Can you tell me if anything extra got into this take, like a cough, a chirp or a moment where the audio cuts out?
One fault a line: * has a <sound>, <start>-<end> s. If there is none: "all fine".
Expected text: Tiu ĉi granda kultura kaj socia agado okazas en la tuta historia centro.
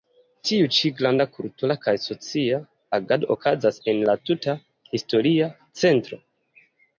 all fine